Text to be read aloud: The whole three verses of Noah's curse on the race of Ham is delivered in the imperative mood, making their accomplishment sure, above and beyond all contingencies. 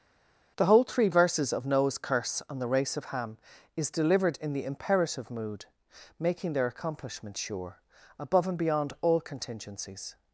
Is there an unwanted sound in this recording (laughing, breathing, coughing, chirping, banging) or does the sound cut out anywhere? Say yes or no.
no